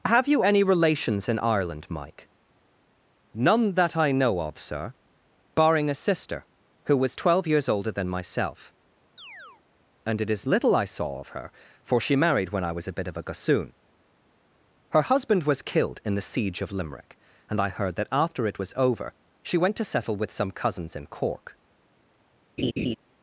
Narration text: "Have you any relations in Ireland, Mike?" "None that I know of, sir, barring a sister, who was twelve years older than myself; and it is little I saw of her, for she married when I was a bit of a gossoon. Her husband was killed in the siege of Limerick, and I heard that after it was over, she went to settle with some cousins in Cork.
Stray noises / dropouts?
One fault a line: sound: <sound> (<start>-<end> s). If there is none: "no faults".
sound: chirp (9.2-9.6 s)
sound: laugh (22.6-23.0 s)